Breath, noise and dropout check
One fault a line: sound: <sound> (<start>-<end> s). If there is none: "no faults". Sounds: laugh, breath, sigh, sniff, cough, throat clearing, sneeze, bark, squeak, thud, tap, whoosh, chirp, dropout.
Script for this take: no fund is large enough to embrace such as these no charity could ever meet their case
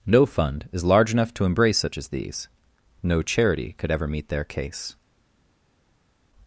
no faults